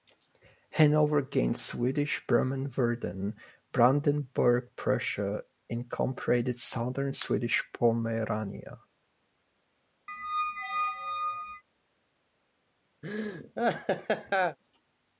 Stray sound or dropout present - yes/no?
yes